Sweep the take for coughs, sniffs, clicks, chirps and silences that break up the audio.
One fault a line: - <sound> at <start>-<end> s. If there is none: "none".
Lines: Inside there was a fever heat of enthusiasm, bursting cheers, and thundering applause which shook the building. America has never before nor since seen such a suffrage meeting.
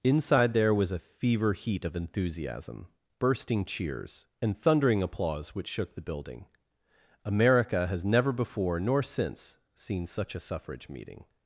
none